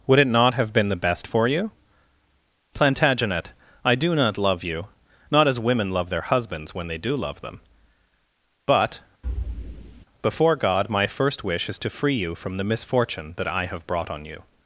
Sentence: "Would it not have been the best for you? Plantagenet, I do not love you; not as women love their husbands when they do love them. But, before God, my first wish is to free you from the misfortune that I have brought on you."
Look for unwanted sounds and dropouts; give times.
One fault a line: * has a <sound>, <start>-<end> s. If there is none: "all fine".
* has a thud, 9.2-10.1 s